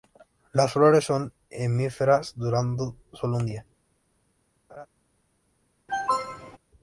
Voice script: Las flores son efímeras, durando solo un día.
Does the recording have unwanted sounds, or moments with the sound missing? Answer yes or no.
yes